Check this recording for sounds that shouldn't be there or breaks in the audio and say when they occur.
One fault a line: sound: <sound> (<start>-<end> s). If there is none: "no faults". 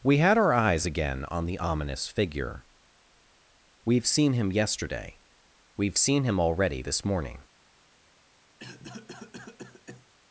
sound: cough (8.6-10.1 s)